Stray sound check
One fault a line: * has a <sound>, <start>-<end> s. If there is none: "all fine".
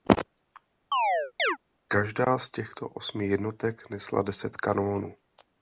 * has a chirp, 0.9-1.6 s